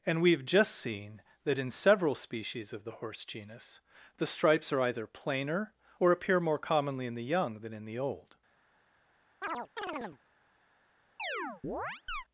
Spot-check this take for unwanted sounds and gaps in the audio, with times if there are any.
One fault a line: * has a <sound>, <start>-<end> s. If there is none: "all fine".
* has a chirp, 9.4-10.2 s
* has a chirp, 11.2-12.2 s